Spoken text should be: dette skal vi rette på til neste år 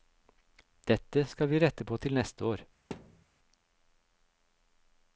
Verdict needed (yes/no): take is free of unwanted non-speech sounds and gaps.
no